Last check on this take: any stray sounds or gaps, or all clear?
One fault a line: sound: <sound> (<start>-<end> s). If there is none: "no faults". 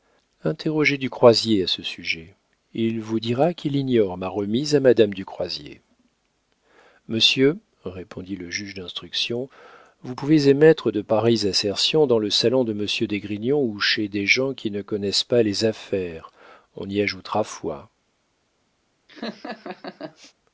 sound: laugh (19.1-20.3 s)